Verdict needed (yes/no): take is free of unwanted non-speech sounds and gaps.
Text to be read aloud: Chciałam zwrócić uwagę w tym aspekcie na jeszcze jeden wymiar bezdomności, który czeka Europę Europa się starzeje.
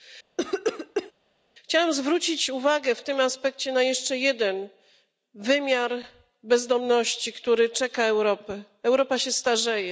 no